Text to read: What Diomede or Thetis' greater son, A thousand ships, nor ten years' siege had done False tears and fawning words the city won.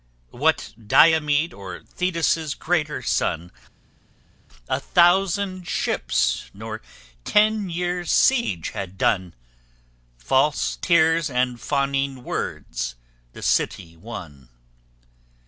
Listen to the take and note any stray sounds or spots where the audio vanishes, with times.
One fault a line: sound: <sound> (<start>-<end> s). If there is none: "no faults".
no faults